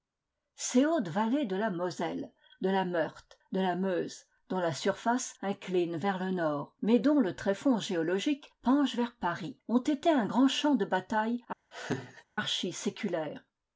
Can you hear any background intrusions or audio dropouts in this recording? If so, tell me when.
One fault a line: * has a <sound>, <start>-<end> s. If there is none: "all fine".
* has a laugh, 11.7-12.2 s